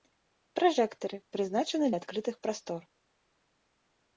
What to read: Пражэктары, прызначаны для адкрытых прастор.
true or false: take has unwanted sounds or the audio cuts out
false